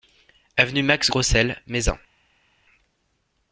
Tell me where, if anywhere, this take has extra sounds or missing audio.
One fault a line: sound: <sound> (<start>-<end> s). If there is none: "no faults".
no faults